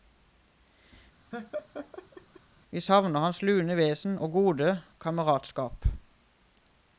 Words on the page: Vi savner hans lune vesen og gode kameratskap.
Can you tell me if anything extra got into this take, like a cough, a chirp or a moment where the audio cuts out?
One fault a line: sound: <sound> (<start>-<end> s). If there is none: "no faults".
sound: laugh (1.3-2.4 s)